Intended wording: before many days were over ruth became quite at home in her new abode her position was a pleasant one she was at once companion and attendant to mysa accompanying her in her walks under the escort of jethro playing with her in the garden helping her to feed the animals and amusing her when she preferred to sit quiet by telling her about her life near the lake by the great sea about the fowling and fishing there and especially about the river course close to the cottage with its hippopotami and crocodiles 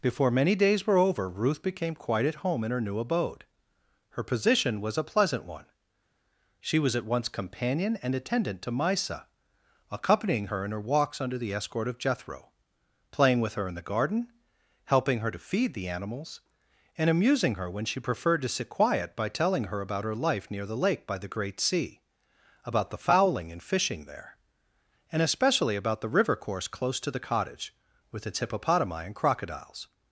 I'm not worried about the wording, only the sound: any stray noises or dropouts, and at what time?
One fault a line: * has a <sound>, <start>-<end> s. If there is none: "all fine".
all fine